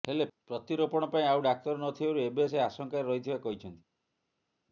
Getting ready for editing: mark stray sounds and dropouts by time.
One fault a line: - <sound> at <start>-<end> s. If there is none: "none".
none